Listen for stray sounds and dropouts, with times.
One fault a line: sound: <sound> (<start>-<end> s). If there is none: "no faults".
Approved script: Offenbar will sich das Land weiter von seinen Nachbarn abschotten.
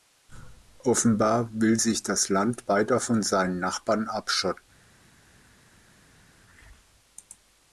no faults